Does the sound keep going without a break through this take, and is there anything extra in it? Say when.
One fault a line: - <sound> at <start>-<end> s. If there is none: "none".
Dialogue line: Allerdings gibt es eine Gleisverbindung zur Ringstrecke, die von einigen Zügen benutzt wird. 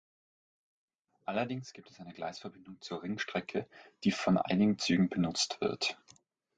none